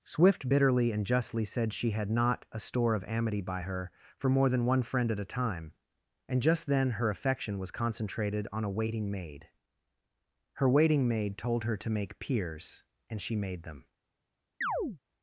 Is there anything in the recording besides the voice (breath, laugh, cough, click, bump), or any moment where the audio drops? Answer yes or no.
yes